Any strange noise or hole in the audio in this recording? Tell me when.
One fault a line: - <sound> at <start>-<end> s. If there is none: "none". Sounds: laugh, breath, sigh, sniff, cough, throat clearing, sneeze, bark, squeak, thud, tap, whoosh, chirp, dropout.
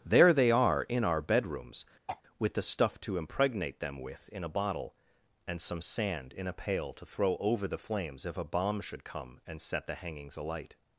- throat clearing at 2.1-2.2 s